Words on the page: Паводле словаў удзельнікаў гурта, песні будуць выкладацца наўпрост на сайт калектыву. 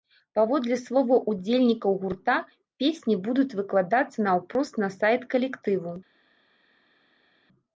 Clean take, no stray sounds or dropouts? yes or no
yes